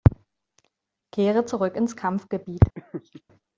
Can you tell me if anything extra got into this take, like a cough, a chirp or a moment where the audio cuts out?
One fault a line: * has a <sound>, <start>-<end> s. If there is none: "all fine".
* has a laugh, 2.8-3.2 s